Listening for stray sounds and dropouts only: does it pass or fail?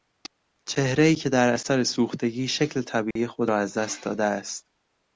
fail